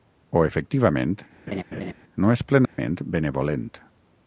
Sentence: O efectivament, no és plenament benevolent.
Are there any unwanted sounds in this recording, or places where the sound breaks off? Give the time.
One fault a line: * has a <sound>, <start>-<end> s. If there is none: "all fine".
* has a laugh, 1.5-1.9 s
* has a dropout, 2.7-2.8 s